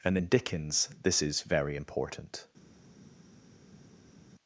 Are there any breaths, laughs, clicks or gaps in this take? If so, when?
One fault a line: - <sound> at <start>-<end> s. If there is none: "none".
none